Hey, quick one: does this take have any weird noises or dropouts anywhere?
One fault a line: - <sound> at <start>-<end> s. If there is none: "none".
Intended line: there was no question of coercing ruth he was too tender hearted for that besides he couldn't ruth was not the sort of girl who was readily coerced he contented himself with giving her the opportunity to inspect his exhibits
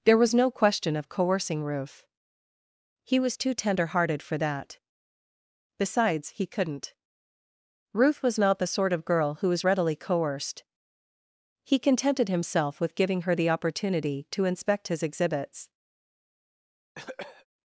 - cough at 16.9-17.5 s